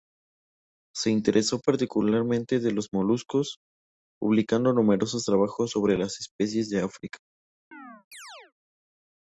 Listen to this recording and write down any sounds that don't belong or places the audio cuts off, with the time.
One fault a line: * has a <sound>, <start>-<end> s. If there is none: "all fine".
* has a chirp, 7.7-8.5 s